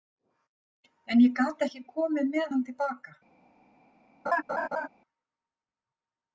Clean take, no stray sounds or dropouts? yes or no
no